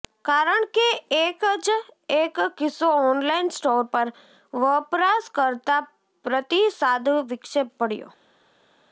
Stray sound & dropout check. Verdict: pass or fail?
pass